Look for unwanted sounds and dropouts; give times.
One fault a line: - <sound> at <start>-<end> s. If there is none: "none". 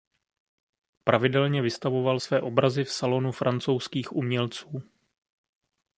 none